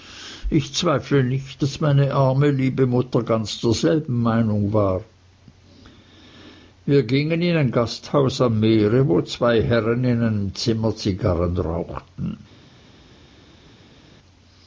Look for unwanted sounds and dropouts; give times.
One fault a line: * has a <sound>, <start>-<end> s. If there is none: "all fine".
all fine